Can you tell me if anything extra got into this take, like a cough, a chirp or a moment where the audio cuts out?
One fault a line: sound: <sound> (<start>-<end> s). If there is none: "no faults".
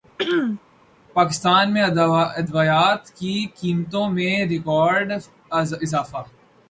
sound: throat clearing (0.2-0.6 s)